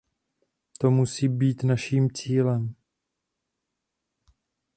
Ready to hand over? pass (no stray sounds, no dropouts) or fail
pass